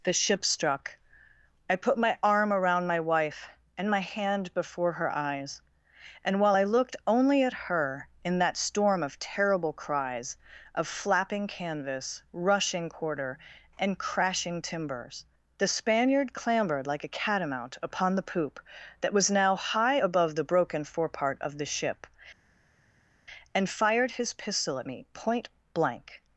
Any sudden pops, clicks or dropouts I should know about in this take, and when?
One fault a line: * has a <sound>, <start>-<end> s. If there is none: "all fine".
all fine